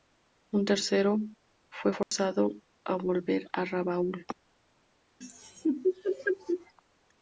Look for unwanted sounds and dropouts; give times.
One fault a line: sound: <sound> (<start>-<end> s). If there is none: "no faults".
sound: dropout (2.0-2.1 s)
sound: laugh (5.2-6.7 s)